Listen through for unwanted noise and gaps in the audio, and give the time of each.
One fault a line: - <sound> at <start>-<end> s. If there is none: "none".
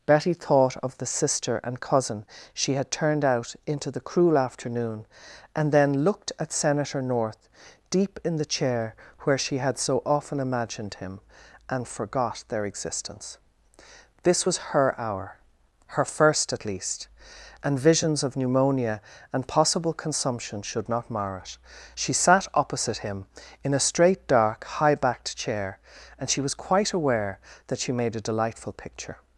none